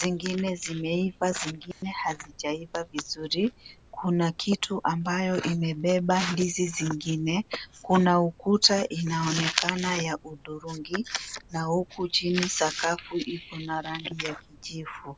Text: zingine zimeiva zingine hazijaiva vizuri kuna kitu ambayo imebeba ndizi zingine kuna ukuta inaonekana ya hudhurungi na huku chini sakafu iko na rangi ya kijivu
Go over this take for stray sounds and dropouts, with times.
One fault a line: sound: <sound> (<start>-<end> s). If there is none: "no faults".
sound: dropout (1.7-1.8 s)